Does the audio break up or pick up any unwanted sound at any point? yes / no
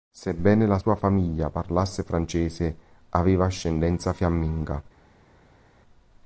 no